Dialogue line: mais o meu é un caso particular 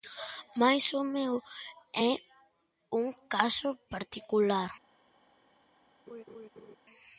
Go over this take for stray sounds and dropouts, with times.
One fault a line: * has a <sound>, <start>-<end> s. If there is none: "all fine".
* has a laugh, 6.1-6.8 s